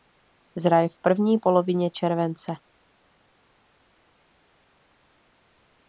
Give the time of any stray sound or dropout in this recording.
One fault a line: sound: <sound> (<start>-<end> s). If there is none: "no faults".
no faults